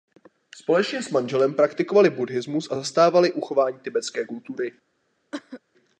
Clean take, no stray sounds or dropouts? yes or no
no